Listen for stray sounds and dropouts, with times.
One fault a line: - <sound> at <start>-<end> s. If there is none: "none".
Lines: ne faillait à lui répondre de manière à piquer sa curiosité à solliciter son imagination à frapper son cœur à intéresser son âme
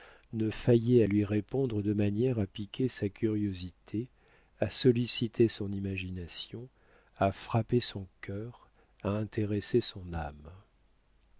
none